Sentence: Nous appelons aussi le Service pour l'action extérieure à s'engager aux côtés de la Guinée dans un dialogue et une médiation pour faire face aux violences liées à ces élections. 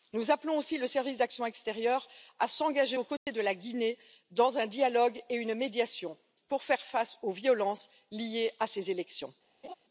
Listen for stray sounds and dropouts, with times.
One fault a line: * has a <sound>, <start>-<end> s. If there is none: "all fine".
* has a dropout, 3.2-3.3 s
* has a laugh, 9.6-9.7 s